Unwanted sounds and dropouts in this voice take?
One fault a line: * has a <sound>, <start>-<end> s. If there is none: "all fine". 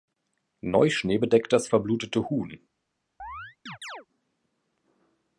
* has a chirp, 3.2-4.1 s